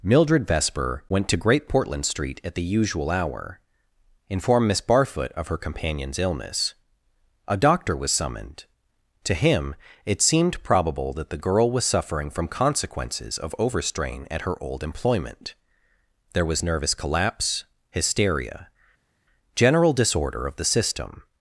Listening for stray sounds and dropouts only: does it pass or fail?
pass